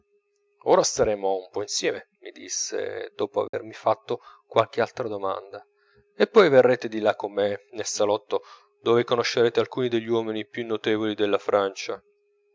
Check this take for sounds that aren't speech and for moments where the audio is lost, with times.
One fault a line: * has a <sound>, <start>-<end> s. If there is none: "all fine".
* has a dropout, 3.5-3.5 s